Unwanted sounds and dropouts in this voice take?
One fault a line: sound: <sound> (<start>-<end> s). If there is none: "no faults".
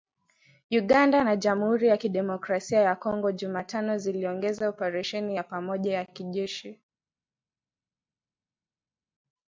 no faults